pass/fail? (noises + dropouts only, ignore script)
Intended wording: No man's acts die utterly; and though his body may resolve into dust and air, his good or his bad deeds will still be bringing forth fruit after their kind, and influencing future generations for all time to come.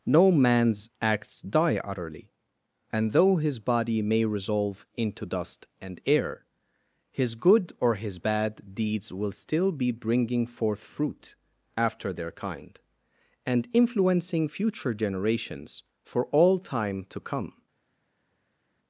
pass